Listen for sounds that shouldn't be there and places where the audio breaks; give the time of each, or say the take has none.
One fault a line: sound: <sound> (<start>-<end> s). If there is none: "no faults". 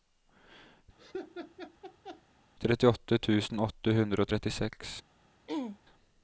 sound: laugh (1.0-2.2 s)
sound: throat clearing (5.5-5.8 s)